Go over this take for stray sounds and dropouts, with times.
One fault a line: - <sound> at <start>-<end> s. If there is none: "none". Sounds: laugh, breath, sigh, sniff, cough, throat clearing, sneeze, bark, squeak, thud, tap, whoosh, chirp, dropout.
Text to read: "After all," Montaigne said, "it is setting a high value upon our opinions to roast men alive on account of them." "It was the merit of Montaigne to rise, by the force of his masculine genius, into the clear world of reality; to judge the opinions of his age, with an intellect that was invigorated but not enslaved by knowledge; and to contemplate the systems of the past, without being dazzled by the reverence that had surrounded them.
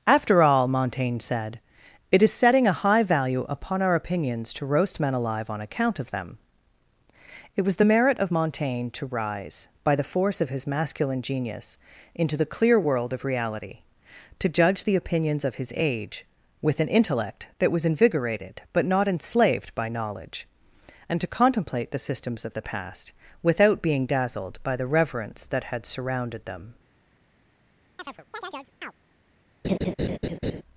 - chirp at 28.0-28.9 s
- laugh at 29.6-30.6 s